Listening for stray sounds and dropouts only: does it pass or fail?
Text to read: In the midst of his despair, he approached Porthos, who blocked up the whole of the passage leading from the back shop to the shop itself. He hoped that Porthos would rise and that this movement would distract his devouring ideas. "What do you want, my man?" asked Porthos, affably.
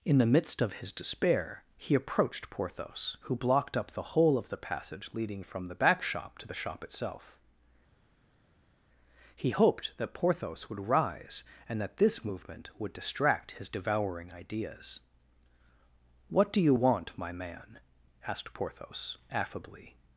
pass